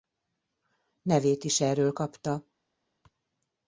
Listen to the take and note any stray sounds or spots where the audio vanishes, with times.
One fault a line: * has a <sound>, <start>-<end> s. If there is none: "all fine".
all fine